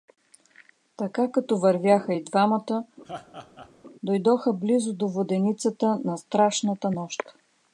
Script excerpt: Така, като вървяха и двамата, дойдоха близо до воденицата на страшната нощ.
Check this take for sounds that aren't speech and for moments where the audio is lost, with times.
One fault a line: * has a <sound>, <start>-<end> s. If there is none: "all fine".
* has a laugh, 3.0-3.7 s